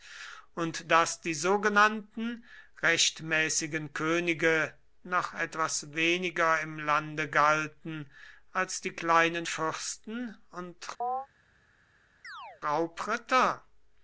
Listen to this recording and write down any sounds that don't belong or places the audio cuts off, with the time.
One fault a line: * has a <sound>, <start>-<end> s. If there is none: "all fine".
* has a chirp, 11.0-11.3 s
* has a chirp, 12.2-12.6 s